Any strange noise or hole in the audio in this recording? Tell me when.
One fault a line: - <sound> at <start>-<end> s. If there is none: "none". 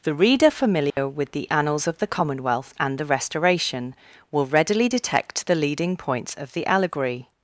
- dropout at 0.9-1.0 s